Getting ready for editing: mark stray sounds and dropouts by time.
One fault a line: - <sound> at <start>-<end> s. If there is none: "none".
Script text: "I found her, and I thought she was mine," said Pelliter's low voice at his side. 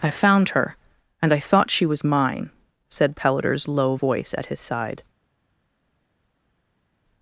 none